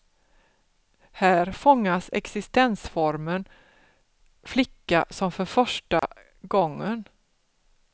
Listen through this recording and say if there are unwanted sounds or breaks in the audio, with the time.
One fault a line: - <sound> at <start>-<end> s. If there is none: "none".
- dropout at 6.0-6.0 s